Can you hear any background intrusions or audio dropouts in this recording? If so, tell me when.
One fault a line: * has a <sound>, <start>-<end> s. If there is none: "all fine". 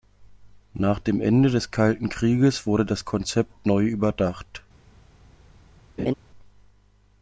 * has a laugh, 6.0-6.1 s